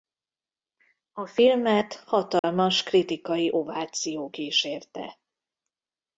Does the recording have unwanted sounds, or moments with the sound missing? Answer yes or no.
yes